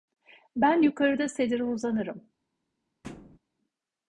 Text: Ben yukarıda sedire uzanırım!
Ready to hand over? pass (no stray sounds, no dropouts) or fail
fail